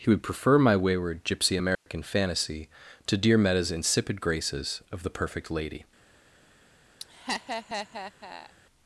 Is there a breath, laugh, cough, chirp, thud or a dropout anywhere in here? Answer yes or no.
yes